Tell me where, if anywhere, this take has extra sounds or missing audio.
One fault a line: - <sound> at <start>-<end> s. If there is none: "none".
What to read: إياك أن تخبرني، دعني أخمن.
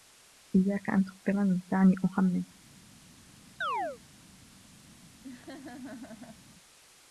- chirp at 3.6-4.0 s
- laugh at 5.2-6.4 s